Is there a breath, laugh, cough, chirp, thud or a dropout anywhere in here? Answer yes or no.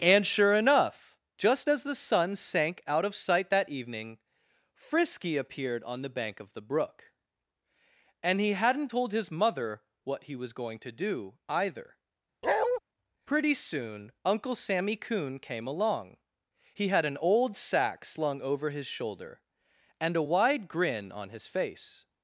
yes